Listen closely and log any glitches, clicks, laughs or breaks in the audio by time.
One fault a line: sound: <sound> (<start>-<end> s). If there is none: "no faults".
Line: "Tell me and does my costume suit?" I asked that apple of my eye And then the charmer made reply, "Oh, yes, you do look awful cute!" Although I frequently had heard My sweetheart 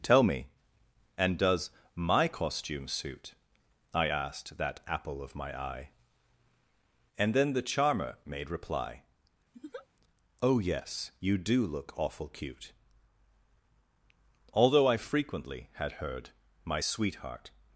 sound: laugh (9.5-9.9 s)